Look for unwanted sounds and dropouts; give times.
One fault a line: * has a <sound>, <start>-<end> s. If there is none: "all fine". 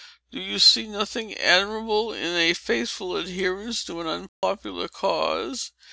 * has a dropout, 4.3-4.4 s